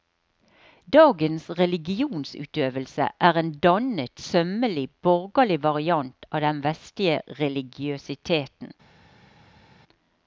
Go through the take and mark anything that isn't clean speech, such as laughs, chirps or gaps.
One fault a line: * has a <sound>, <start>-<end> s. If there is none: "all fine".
all fine